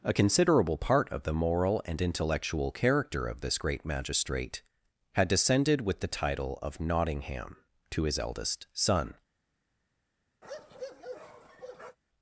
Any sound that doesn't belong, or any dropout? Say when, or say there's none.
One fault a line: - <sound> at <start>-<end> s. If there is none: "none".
- bark at 10.4-12.0 s